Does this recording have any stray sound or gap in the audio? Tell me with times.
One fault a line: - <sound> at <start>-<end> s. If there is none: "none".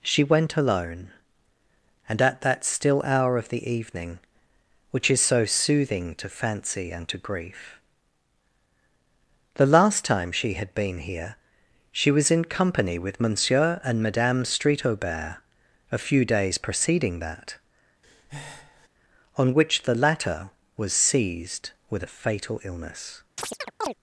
- breath at 18.0-18.9 s
- chirp at 23.4-23.9 s